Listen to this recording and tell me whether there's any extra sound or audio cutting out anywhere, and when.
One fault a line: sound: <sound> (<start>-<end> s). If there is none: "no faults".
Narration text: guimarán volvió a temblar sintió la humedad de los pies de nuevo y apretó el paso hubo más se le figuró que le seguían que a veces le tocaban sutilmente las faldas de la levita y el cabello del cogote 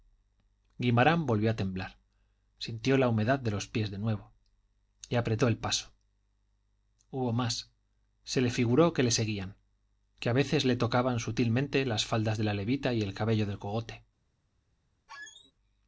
sound: squeak (15.1-15.5 s)